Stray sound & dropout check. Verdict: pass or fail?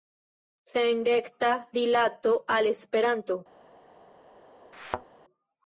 fail